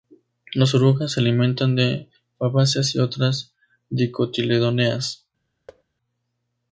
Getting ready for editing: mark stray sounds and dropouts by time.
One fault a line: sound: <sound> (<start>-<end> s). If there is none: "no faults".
sound: thud (5.7-5.8 s)